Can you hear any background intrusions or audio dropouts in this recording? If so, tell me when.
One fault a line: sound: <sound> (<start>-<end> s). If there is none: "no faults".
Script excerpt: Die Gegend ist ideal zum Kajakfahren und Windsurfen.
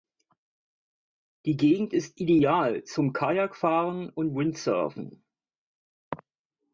no faults